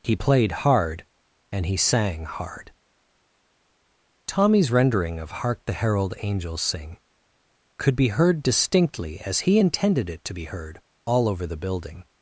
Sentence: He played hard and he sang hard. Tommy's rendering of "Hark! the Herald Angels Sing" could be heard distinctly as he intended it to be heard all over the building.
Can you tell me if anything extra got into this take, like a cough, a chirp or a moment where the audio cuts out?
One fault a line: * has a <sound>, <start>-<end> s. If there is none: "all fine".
all fine